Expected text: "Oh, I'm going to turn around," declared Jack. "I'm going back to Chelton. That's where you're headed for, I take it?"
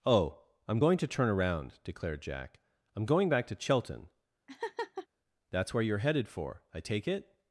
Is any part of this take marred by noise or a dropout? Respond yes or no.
yes